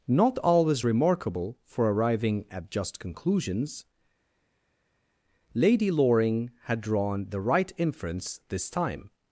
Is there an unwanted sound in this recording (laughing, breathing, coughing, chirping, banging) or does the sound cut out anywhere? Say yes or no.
no